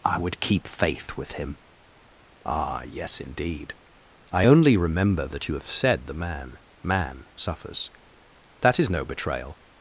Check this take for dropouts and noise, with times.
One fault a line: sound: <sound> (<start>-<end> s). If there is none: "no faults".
no faults